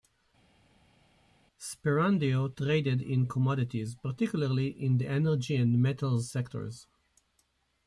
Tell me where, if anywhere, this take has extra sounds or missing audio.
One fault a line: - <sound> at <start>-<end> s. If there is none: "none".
none